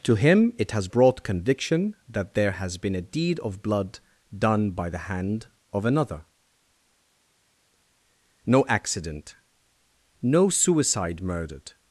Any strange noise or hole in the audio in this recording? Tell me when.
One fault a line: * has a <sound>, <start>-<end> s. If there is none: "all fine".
all fine